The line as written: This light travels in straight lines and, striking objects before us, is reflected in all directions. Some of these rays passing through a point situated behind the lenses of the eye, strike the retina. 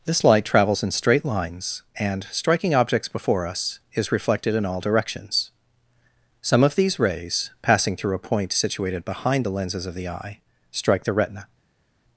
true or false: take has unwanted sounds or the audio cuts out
false